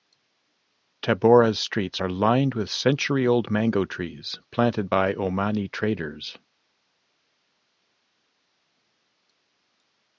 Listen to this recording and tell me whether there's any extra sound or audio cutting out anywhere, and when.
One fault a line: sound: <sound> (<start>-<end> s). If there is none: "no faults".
no faults